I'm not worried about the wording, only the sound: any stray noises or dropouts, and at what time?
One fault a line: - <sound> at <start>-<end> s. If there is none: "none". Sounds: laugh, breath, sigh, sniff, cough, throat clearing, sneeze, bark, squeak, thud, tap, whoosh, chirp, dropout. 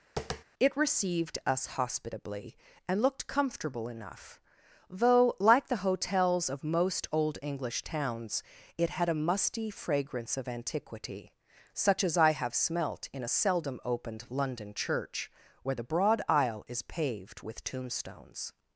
- tap at 0.2-0.4 s